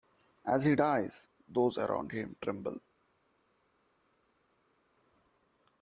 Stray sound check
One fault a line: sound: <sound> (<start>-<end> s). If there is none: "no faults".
no faults